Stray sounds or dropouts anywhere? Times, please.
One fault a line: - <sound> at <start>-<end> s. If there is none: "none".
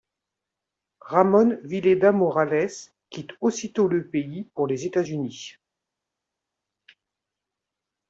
none